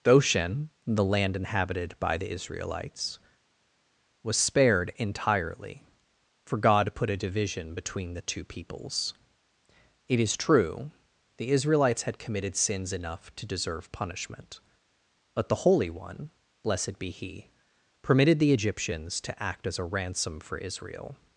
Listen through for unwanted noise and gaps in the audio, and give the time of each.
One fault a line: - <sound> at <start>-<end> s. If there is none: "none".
none